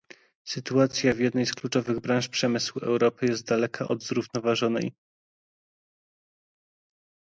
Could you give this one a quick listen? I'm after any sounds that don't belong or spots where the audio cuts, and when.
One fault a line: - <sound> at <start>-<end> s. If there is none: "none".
none